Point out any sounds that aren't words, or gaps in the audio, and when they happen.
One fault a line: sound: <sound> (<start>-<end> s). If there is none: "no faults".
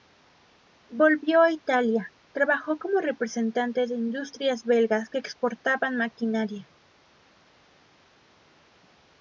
no faults